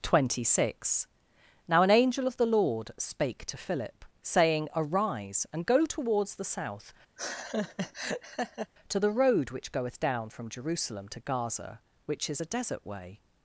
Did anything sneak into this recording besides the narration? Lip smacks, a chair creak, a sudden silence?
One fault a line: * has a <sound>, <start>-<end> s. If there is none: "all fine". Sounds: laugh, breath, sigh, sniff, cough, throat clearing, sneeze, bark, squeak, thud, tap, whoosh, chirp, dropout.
* has a laugh, 7.2-8.7 s